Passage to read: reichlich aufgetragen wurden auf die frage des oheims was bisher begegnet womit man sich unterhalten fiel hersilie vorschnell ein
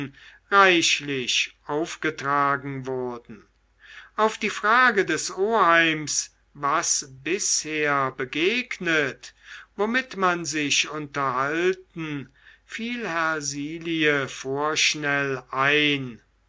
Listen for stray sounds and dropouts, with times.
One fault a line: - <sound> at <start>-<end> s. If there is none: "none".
none